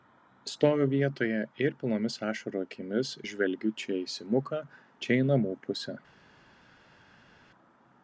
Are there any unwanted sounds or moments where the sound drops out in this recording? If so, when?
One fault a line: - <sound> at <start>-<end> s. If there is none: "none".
none